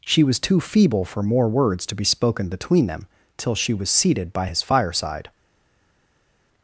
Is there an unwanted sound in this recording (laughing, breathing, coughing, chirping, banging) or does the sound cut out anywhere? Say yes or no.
no